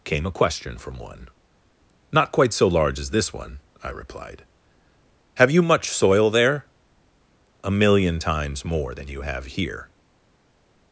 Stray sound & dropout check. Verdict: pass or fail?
pass